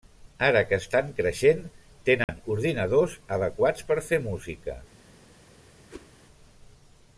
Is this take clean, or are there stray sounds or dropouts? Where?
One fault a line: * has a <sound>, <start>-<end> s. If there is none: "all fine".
* has a dropout, 2.2-2.3 s
* has a whoosh, 5.9-6.1 s